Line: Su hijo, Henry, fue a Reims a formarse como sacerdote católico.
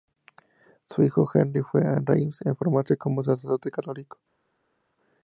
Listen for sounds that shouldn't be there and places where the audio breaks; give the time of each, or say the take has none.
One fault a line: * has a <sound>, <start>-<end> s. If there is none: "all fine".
all fine